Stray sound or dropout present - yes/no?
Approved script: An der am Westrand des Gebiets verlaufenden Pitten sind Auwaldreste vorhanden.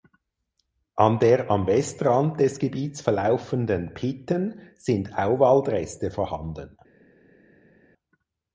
no